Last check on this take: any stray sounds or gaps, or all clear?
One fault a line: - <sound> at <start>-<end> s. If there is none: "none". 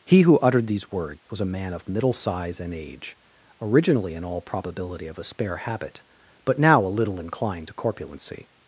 - dropout at 1.2-1.3 s